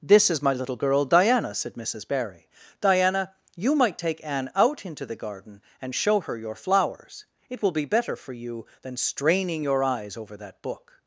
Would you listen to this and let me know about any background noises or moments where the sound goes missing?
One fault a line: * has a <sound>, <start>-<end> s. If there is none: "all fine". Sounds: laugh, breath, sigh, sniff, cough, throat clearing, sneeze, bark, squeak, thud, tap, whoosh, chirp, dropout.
all fine